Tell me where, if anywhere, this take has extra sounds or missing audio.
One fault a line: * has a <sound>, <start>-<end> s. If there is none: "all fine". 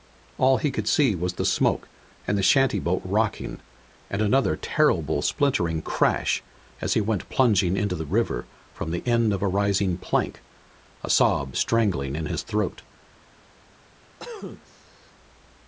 * has a cough, 14.2-15.1 s